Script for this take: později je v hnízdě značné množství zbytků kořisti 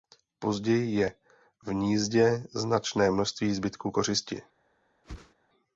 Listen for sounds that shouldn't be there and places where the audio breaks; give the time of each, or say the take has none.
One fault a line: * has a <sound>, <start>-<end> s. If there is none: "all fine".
* has a whoosh, 5.0-5.3 s